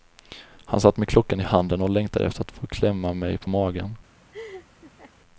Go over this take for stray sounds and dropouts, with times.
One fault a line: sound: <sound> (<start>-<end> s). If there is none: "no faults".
sound: laugh (4.3-5.1 s)